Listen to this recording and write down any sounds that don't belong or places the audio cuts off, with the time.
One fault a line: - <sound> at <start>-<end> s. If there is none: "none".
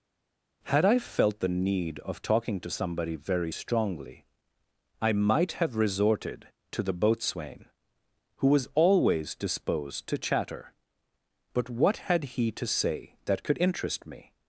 none